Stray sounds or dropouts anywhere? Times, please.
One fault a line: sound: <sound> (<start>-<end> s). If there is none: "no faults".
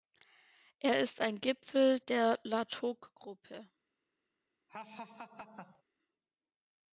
sound: laugh (4.7-5.8 s)